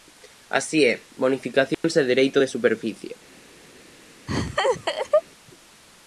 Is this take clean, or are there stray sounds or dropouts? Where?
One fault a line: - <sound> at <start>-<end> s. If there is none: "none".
- dropout at 1.7-1.8 s
- laugh at 4.3-5.2 s